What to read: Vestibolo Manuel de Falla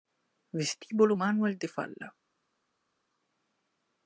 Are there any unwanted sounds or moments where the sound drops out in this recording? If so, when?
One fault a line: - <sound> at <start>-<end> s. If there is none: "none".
none